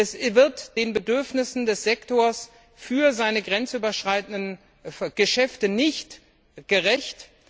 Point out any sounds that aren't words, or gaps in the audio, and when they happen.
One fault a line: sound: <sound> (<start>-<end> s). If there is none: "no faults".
no faults